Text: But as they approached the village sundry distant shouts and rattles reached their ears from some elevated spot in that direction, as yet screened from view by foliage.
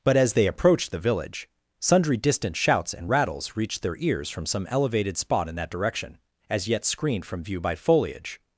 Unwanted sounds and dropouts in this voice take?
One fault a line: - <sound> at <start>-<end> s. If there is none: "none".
none